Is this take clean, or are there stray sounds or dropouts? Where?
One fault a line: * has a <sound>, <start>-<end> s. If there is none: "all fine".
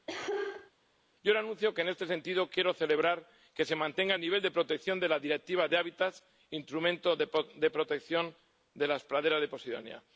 * has a cough, 0.1-0.7 s